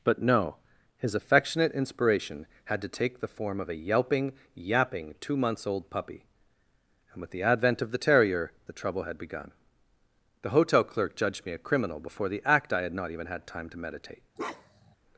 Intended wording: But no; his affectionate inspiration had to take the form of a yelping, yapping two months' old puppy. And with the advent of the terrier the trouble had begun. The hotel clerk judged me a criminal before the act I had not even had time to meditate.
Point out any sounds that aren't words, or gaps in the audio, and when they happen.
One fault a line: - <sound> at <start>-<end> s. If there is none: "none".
- bark at 14.4-15.0 s